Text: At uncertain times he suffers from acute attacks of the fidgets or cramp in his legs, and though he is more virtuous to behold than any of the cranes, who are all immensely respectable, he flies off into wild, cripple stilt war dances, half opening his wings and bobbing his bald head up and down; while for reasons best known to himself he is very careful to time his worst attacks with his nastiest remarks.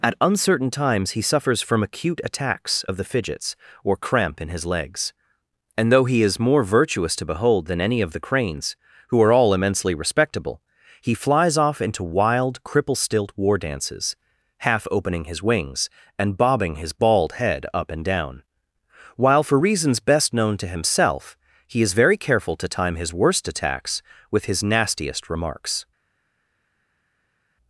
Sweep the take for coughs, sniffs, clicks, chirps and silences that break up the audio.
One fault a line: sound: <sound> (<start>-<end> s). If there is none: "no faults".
no faults